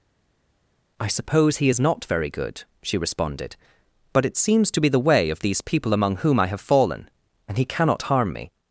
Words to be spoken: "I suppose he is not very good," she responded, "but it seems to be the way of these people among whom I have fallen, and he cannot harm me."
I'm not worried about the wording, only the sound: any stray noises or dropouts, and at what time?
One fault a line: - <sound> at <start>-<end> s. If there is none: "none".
none